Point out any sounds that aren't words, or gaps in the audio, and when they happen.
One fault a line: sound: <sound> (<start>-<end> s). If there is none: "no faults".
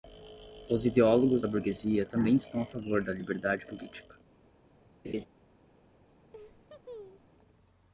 sound: laugh (5.0-5.3 s)
sound: laugh (6.3-7.3 s)